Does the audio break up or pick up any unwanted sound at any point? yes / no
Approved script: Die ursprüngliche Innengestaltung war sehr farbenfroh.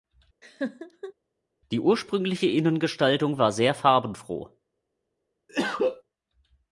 yes